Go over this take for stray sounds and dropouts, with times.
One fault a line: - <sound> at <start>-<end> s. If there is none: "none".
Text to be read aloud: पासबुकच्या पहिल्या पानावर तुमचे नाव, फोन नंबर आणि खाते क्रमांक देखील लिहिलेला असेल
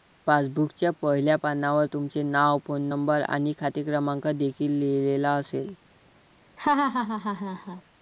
- laugh at 6.6-7.8 s